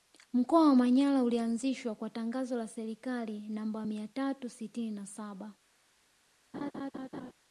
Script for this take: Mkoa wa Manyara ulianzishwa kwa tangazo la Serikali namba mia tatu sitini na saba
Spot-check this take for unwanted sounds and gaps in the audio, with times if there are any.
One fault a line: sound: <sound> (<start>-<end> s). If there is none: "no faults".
sound: laugh (6.5-7.3 s)